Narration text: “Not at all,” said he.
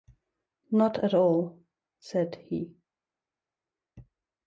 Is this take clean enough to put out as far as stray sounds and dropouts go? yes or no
yes